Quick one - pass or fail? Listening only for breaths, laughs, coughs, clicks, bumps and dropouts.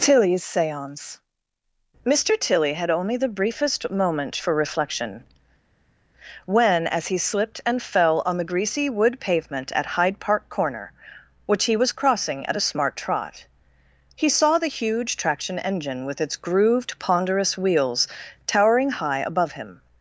pass